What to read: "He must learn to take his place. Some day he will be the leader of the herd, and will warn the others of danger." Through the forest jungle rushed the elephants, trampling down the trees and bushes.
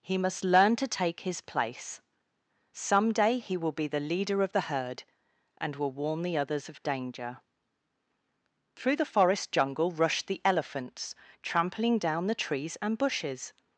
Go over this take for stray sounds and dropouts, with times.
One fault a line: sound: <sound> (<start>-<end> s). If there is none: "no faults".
no faults